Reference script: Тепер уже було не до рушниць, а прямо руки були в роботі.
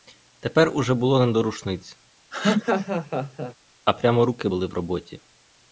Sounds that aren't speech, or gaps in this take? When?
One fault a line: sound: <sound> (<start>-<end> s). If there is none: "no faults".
sound: laugh (2.3-3.5 s)